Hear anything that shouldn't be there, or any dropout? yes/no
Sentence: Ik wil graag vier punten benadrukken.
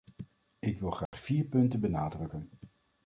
yes